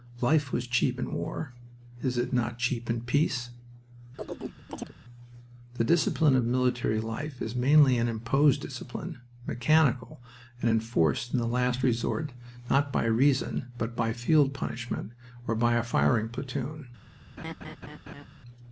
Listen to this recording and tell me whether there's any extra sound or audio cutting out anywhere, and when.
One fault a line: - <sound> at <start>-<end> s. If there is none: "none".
- chirp at 4.2-4.9 s
- laugh at 17.4-18.3 s